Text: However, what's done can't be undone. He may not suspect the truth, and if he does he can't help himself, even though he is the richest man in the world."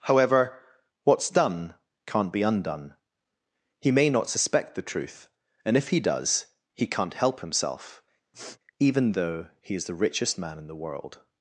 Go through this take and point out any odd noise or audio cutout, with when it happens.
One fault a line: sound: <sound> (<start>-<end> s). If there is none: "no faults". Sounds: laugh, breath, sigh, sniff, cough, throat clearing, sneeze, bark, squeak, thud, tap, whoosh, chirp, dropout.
sound: sniff (8.3-8.6 s)